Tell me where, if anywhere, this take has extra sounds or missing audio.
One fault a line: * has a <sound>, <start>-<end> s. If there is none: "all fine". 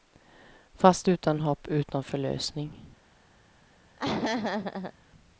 * has a laugh, 4.0-4.9 s